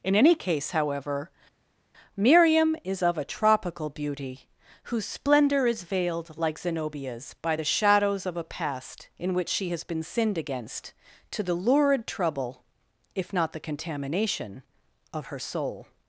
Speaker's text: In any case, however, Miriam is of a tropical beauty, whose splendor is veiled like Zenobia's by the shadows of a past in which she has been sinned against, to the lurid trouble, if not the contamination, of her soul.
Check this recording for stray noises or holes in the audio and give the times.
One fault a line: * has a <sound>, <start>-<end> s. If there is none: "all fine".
all fine